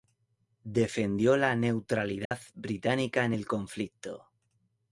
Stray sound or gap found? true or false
true